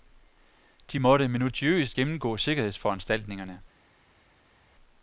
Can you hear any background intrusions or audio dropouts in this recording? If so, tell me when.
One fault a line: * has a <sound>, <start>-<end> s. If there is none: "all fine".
all fine